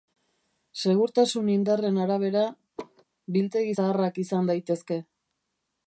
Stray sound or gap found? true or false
true